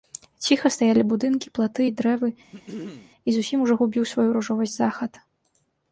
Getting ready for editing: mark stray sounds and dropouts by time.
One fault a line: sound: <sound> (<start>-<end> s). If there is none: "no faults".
sound: throat clearing (2.5-3.1 s)